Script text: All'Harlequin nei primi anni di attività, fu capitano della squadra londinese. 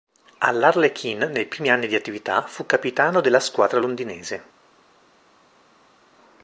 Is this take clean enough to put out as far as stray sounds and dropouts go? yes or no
yes